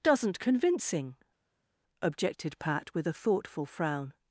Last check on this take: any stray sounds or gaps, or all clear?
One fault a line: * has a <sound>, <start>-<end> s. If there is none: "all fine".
all fine